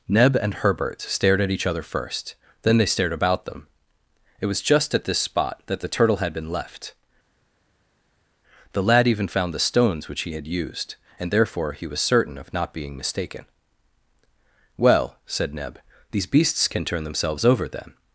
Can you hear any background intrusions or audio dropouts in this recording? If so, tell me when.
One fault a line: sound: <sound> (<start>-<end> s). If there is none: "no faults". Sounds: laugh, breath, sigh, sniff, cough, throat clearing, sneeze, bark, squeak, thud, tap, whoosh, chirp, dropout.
no faults